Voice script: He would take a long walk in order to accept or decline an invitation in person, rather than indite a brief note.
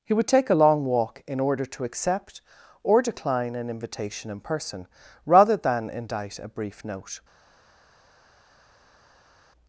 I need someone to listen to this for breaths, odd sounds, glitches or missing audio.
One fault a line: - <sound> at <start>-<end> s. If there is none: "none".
none